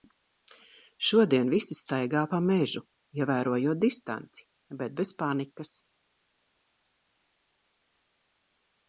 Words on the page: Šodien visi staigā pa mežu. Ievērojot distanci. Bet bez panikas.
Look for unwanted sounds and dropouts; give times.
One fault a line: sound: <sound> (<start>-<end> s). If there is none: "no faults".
no faults